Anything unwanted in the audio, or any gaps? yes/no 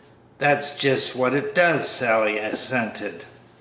no